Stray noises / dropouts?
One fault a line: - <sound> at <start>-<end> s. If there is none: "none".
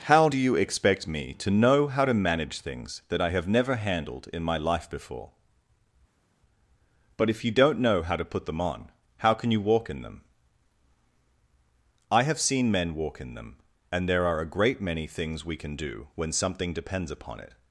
none